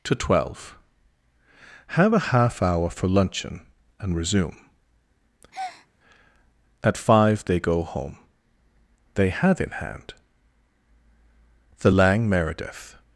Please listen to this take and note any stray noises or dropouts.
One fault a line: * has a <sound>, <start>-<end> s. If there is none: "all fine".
* has a breath, 5.5-5.9 s